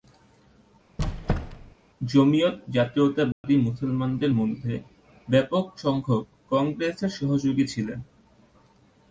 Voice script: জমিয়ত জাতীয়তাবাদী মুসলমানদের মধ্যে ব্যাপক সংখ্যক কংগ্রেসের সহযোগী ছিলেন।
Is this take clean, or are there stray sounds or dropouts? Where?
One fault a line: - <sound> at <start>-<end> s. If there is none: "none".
- squeak at 1.0-1.8 s
- dropout at 3.3-3.4 s